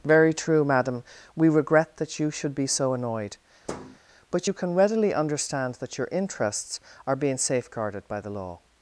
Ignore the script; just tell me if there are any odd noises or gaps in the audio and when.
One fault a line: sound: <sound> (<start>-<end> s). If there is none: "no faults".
sound: thud (3.7-4.0 s)